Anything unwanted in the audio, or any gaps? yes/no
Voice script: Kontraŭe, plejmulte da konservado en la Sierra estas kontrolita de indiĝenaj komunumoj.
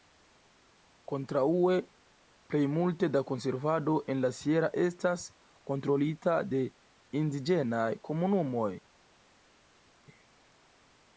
no